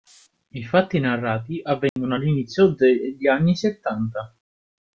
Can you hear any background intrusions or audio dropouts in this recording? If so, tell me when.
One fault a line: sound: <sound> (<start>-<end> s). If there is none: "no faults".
sound: dropout (1.9-2.0 s)